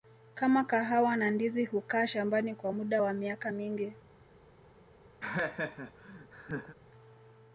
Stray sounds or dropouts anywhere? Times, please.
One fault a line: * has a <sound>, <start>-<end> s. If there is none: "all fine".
* has a laugh, 5.2-6.7 s